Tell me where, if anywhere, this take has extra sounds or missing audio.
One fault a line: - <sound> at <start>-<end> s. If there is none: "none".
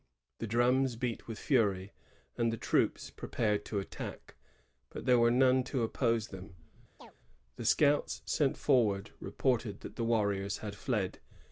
- chirp at 7.0-7.2 s